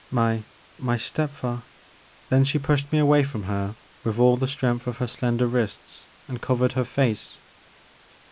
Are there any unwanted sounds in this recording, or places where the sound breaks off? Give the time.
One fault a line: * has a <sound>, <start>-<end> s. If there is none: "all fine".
all fine